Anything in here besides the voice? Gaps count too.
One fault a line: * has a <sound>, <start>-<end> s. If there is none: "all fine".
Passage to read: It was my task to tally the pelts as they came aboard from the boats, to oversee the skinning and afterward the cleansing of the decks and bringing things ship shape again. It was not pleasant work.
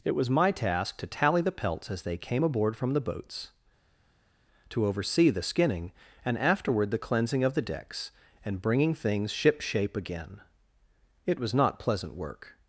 all fine